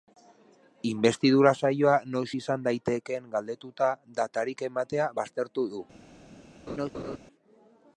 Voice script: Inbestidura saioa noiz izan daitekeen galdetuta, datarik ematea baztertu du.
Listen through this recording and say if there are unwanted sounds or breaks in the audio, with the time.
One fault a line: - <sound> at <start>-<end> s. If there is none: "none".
- laugh at 6.7-7.2 s